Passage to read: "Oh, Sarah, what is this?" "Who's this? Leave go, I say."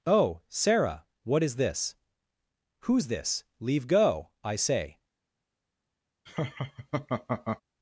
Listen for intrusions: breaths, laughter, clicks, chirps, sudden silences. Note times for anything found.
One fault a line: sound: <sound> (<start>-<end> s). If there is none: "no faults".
sound: laugh (6.3-7.6 s)